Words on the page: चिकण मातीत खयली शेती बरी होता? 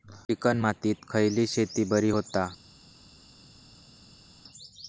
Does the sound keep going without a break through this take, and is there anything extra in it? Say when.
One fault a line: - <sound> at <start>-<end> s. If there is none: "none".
none